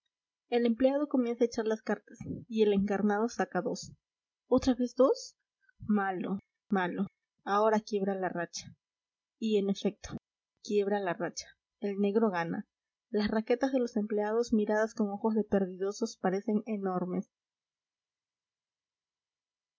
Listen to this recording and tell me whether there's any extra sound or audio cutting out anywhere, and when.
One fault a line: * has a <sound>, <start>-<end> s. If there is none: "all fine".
all fine